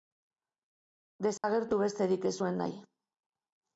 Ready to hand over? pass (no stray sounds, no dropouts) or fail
fail